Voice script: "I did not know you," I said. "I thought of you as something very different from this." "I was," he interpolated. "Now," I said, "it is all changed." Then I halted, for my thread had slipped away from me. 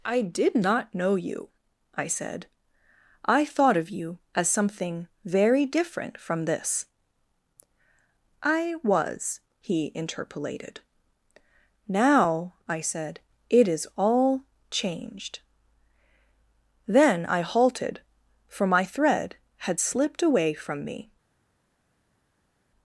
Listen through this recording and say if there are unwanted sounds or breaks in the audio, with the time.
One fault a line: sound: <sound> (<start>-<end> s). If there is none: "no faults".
no faults